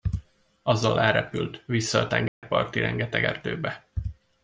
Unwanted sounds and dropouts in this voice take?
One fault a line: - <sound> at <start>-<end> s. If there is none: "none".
- dropout at 2.3-2.4 s